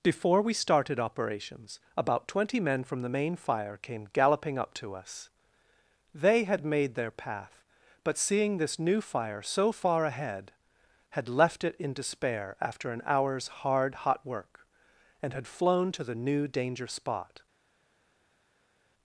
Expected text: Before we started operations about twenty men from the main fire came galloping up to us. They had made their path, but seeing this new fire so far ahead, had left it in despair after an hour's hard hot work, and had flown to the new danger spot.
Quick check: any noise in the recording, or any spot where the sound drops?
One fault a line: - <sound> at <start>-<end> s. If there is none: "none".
none